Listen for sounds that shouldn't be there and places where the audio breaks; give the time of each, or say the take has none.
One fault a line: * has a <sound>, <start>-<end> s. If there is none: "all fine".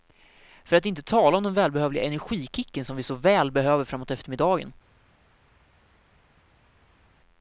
all fine